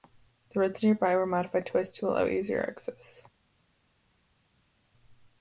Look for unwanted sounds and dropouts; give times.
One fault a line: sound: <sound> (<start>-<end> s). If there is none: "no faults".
no faults